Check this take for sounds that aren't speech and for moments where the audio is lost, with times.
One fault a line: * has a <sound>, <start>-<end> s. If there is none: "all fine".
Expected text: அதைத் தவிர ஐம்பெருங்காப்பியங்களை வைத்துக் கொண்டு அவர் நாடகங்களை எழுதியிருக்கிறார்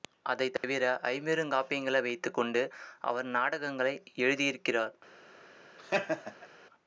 * has a dropout, 0.6-0.6 s
* has a laugh, 5.8-6.5 s